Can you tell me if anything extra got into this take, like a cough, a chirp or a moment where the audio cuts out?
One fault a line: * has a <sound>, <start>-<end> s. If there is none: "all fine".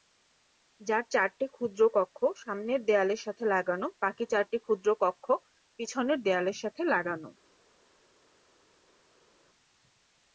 all fine